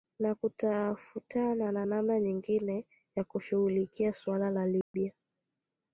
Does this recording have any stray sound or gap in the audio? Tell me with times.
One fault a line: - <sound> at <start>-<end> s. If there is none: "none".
- dropout at 4.8-4.9 s